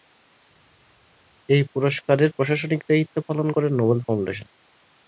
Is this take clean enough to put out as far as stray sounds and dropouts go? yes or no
yes